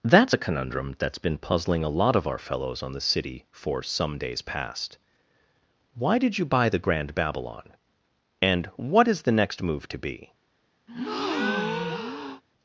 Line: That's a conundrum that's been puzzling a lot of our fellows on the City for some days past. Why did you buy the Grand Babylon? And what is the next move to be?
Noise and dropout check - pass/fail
fail